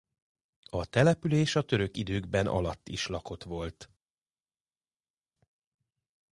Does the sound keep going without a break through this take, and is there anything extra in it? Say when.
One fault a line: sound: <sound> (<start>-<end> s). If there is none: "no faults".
no faults